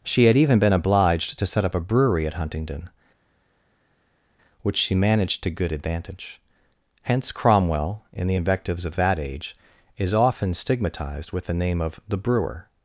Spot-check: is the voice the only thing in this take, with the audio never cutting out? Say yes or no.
yes